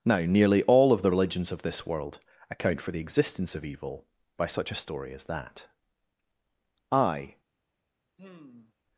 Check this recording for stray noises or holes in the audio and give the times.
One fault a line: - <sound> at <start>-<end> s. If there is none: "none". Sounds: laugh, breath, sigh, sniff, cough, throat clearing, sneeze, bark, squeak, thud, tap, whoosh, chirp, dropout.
- sigh at 8.2-8.7 s